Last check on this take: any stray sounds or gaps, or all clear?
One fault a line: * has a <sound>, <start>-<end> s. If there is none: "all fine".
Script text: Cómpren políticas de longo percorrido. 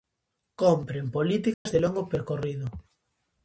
* has a dropout, 1.5-1.7 s